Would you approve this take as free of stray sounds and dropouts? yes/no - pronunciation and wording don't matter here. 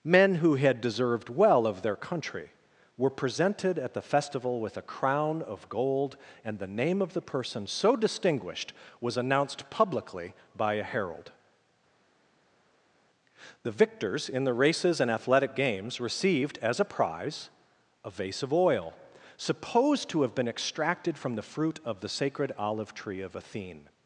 yes